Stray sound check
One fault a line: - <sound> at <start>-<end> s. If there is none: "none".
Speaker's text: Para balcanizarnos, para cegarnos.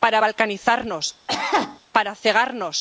- cough at 1.3-1.8 s